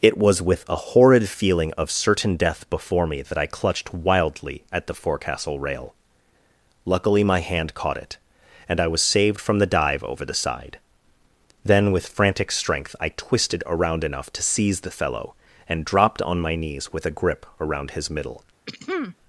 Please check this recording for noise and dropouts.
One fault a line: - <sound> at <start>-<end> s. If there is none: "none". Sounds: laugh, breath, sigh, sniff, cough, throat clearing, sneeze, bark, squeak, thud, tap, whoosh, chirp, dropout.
- throat clearing at 18.7-19.2 s